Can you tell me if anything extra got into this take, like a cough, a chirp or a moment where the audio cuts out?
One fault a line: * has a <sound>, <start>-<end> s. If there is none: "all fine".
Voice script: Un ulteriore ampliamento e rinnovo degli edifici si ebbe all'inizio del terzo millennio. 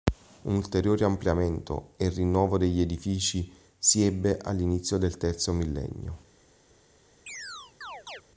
* has a chirp, 7.3-8.2 s